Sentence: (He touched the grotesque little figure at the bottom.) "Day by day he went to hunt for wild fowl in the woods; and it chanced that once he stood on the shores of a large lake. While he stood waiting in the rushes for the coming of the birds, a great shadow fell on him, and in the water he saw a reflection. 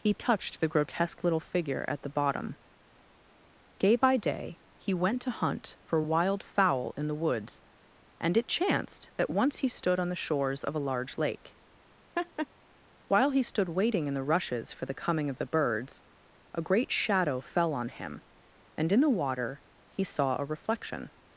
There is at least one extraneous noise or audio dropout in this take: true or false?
true